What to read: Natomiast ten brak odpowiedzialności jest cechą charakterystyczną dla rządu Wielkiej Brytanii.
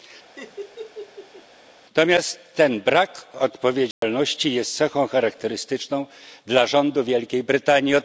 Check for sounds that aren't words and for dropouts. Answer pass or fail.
fail